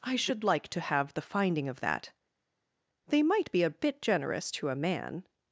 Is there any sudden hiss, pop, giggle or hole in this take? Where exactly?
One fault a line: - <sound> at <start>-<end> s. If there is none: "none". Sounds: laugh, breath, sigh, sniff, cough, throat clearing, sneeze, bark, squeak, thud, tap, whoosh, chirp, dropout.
none